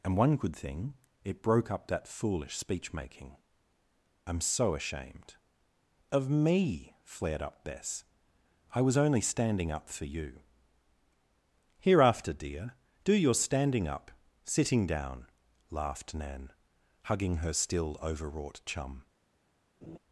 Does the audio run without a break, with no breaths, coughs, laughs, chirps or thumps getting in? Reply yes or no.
no